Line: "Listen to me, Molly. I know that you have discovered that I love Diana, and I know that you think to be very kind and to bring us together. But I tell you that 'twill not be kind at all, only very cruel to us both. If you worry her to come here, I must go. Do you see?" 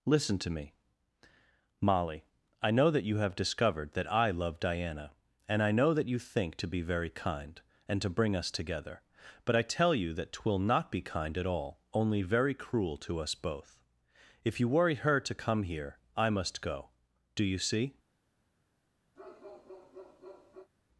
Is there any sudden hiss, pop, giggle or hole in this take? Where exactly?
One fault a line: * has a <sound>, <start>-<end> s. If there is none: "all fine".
* has a bark, 19.2-20.7 s